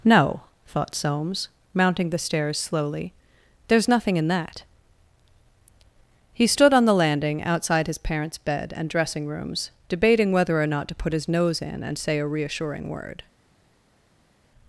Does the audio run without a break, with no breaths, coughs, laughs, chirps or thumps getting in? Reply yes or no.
yes